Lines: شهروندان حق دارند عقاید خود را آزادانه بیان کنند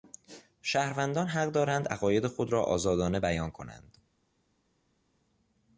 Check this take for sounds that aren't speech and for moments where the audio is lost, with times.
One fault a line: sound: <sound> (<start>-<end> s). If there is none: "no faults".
no faults